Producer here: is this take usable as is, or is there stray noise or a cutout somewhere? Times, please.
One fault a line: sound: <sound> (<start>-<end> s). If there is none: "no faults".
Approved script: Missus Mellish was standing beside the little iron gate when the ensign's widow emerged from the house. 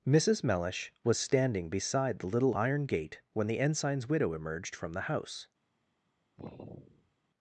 sound: sigh (6.4-7.2 s)